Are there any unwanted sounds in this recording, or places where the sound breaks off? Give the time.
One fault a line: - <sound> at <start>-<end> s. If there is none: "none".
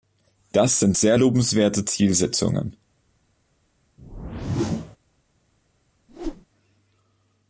- whoosh at 4.0-5.0 s
- whoosh at 6.1-6.5 s